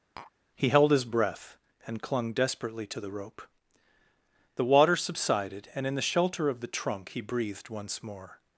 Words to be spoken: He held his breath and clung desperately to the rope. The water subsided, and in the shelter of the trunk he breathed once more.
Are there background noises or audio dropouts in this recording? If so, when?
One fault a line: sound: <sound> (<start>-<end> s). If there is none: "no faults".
sound: tap (0.2-0.3 s)